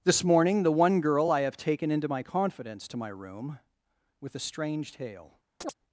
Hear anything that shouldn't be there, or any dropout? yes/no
yes